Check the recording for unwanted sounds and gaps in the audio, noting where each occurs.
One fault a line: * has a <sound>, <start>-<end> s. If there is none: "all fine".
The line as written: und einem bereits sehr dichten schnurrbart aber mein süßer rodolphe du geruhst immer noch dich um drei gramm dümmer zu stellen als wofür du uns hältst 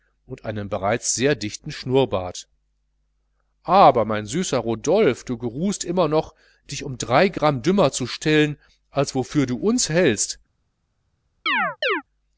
* has a chirp, 11.5-12.0 s